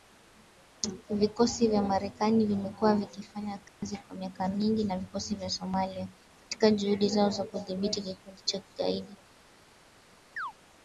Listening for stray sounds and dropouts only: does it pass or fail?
fail